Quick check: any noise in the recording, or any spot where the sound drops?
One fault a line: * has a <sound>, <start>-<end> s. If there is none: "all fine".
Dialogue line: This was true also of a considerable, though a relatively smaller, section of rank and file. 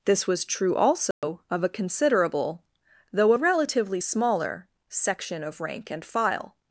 * has a dropout, 1.1-1.2 s